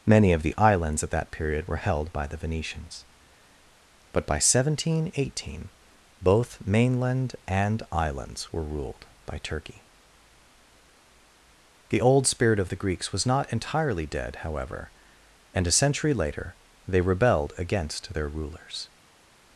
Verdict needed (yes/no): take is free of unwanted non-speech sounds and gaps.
yes